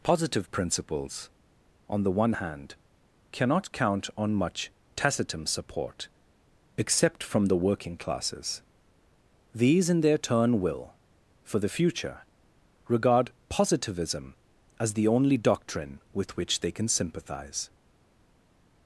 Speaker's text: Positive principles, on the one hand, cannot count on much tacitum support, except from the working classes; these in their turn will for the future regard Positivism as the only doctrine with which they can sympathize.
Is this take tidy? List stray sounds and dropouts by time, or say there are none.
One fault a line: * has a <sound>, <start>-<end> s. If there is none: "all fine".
all fine